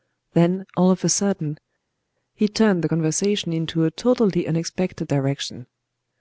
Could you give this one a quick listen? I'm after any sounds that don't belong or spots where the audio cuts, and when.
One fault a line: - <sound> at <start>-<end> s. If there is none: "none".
none